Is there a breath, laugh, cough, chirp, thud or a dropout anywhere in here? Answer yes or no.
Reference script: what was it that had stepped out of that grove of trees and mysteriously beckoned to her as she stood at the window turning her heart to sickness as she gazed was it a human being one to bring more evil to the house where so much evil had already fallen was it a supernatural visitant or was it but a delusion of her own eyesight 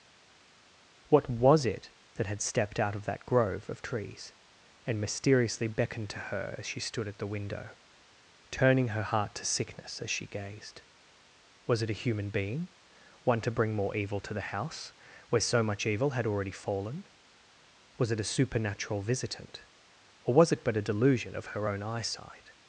no